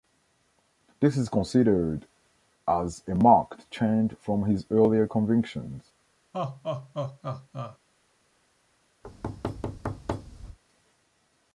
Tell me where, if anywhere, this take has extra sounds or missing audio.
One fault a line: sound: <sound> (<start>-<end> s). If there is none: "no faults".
sound: laugh (6.3-7.8 s)
sound: thud (9.0-10.6 s)